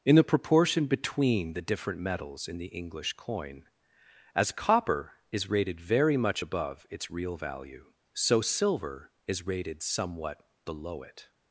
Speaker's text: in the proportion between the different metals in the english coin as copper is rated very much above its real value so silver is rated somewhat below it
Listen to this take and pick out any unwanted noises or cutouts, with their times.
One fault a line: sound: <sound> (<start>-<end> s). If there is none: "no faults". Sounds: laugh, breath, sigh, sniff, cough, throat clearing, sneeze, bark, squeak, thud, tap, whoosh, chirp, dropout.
no faults